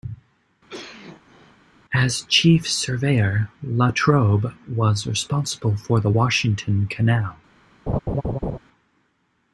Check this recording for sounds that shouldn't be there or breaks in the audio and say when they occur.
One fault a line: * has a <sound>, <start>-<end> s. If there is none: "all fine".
* has a cough, 0.7-1.6 s
* has a laugh, 7.9-8.6 s